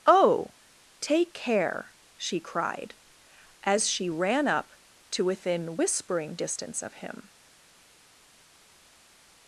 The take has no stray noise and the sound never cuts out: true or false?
true